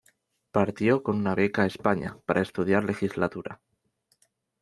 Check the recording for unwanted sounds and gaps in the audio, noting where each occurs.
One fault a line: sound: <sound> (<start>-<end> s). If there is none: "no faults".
no faults